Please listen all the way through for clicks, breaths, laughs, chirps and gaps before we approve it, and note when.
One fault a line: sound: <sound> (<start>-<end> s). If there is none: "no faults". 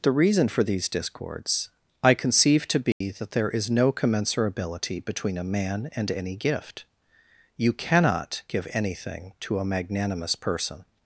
sound: dropout (2.9-3.0 s)